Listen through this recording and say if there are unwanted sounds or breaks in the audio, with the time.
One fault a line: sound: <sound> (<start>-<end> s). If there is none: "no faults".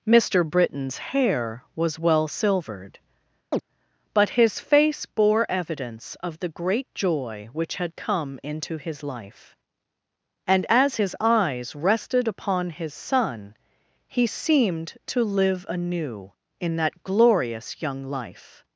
sound: chirp (3.5-3.6 s)